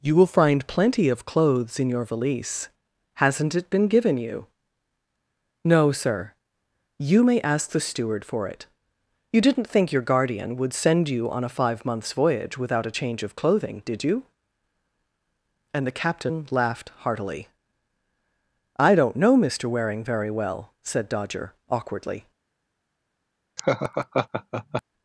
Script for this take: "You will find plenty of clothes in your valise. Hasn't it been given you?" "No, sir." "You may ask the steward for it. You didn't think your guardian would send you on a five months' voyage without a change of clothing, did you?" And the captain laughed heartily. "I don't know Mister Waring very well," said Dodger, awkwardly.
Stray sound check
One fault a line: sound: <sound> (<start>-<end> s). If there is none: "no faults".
sound: laugh (23.6-24.8 s)